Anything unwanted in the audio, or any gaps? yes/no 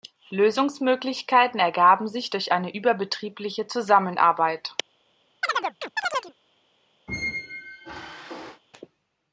yes